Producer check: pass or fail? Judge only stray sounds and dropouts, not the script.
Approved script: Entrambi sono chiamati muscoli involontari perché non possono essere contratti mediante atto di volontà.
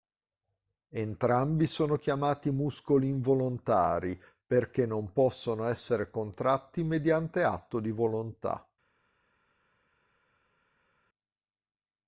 pass